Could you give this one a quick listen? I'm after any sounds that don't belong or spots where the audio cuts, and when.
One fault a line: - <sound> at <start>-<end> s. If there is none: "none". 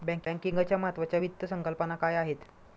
none